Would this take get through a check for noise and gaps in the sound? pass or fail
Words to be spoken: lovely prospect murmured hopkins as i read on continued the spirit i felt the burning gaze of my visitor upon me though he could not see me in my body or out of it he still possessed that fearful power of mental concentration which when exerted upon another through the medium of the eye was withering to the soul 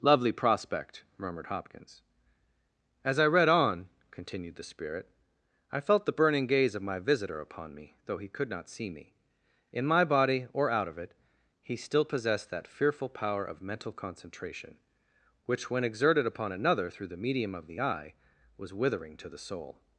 pass